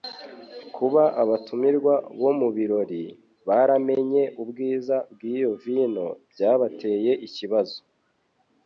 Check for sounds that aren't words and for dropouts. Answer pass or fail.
pass